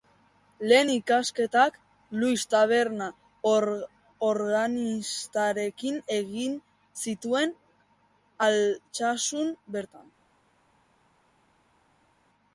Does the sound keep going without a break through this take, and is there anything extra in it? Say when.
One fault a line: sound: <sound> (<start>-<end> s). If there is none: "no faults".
no faults